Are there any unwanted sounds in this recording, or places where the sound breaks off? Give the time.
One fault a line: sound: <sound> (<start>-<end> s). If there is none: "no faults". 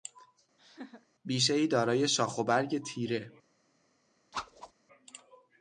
sound: laugh (0.6-1.1 s)
sound: whoosh (4.3-4.7 s)